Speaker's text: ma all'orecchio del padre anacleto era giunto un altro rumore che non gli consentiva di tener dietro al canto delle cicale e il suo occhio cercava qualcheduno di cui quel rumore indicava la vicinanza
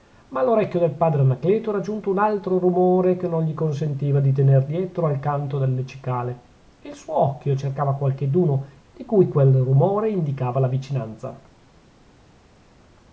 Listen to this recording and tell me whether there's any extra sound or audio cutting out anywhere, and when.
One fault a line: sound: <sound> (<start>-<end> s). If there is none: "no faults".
no faults